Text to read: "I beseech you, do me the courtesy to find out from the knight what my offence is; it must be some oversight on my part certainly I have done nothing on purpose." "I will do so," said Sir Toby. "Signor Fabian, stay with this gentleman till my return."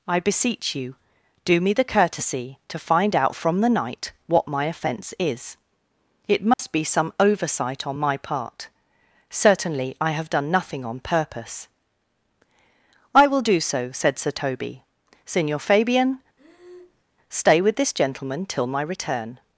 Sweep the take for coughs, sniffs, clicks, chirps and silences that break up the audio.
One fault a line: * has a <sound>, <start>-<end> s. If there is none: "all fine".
* has a dropout, 6.5-6.6 s
* has a breath, 16.4-17.0 s